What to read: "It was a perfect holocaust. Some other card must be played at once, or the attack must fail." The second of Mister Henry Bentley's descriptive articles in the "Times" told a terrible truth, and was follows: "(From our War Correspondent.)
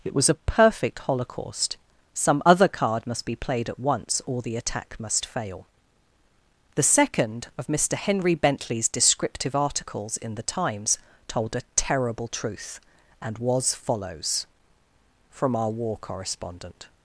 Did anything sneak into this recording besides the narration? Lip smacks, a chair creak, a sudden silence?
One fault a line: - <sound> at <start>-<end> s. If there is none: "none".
none